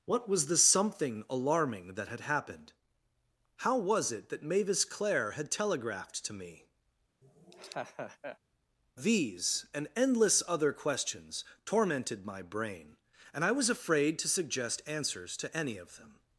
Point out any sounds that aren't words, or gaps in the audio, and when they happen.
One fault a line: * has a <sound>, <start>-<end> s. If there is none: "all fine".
* has a laugh, 7.2-8.4 s